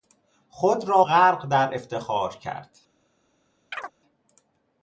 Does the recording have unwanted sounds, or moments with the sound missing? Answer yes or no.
yes